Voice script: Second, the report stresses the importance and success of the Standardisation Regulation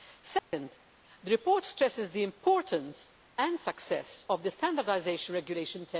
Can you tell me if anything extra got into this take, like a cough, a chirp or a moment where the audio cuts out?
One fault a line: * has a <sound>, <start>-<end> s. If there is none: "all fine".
* has a dropout, 0.4-0.5 s